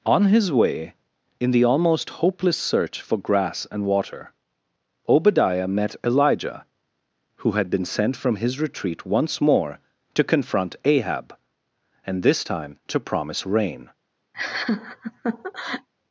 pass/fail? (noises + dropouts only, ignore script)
fail